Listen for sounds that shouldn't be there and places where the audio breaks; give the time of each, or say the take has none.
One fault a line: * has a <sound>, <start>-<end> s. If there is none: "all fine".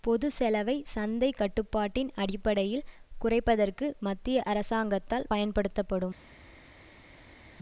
all fine